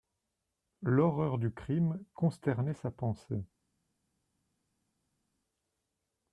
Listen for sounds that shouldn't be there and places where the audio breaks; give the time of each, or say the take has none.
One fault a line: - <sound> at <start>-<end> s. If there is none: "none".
none